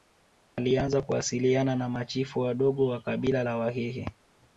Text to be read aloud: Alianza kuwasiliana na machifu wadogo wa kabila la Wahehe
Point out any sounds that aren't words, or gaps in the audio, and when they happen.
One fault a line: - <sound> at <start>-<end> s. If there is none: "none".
none